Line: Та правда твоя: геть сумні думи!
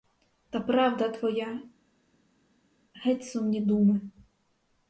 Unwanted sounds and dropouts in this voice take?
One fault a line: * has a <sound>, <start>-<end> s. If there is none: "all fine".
all fine